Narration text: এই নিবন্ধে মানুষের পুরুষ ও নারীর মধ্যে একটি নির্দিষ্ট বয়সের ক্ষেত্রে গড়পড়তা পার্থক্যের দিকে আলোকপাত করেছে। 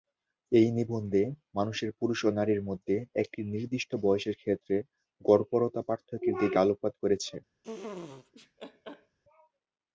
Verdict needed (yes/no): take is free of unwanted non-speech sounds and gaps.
no